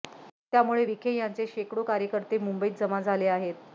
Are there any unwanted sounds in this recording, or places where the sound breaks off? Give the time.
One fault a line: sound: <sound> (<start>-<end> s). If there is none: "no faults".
no faults